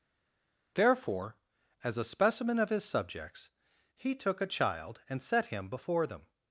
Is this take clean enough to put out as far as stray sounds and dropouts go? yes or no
yes